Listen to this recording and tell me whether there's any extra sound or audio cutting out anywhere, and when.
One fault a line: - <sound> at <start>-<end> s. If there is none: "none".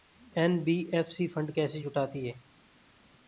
none